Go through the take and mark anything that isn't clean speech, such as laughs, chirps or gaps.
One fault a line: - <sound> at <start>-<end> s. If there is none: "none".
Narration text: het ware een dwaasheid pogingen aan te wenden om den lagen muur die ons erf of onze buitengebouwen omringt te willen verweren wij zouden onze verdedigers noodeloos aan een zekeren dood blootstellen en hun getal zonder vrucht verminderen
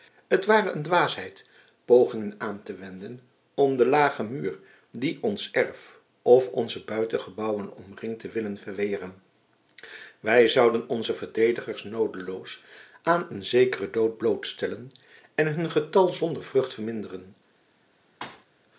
- thud at 18.2-18.5 s